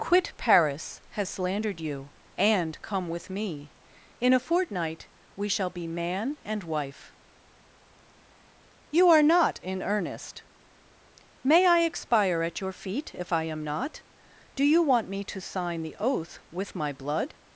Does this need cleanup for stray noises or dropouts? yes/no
no